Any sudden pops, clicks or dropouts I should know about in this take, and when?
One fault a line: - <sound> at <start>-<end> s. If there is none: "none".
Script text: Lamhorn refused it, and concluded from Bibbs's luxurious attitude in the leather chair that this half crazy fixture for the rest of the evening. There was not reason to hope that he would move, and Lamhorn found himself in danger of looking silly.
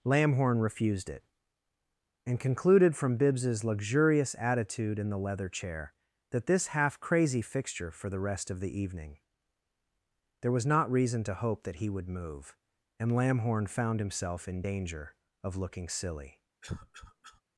- cough at 16.6-17.4 s